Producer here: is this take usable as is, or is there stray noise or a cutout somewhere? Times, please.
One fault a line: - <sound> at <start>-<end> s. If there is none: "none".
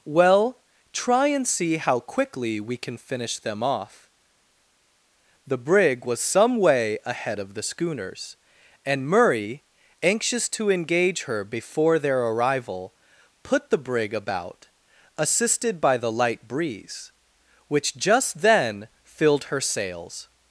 none